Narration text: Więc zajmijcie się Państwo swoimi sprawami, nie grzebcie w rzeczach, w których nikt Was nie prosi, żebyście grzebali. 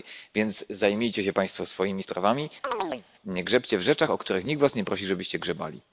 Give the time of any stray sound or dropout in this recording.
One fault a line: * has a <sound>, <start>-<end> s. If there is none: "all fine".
* has a chirp, 2.6-3.1 s